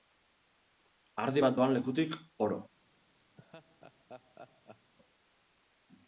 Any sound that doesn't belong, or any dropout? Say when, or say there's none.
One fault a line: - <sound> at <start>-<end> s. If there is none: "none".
- laugh at 3.4-4.9 s